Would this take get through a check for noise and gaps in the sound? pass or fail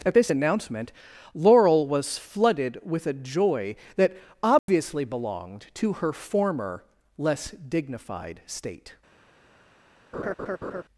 fail